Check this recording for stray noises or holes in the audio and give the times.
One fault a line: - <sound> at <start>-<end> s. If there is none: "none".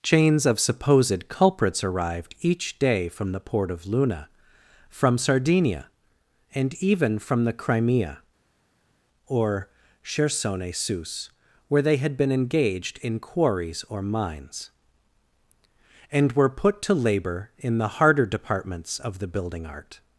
none